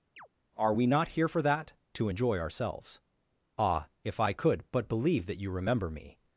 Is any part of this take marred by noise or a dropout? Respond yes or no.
yes